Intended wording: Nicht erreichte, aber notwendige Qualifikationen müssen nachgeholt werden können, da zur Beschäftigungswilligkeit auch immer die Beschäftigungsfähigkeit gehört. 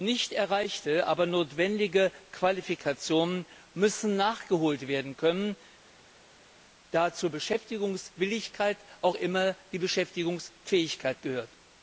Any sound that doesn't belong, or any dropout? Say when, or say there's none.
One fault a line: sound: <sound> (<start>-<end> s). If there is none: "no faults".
no faults